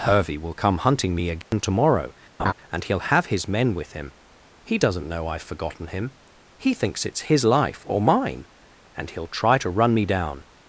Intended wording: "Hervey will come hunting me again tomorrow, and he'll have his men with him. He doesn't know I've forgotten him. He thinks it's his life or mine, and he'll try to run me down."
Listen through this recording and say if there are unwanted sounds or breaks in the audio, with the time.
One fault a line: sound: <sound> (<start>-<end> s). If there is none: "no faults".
sound: dropout (1.4-1.5 s)
sound: laugh (2.4-2.5 s)